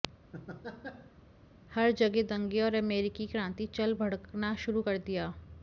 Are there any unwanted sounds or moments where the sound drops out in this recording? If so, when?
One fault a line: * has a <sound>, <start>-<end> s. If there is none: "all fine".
* has a laugh, 0.3-1.2 s